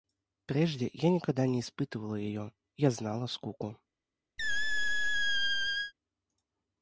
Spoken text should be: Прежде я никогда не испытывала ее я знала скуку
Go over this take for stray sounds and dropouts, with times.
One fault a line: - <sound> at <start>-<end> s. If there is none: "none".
- squeak at 4.4-5.9 s